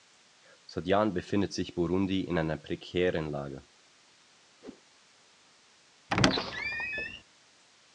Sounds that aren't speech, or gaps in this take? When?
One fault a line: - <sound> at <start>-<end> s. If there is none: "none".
- whoosh at 4.6-4.8 s
- squeak at 6.1-7.2 s